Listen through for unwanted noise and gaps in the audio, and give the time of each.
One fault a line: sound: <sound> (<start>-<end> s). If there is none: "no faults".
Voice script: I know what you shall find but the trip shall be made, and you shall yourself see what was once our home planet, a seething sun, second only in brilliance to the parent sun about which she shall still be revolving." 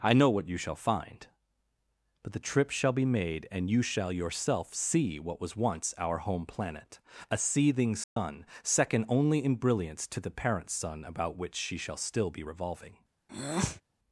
sound: dropout (8.0-8.2 s)
sound: breath (13.3-13.8 s)